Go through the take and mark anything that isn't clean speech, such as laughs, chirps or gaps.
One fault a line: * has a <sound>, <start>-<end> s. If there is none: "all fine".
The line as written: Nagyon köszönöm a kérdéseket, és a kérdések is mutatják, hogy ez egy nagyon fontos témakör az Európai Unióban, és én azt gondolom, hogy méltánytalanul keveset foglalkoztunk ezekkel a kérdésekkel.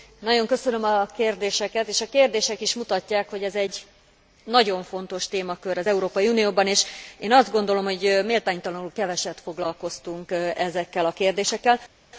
all fine